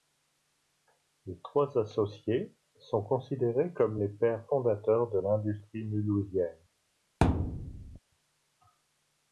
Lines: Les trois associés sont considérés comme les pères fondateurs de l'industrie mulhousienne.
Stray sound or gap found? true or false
true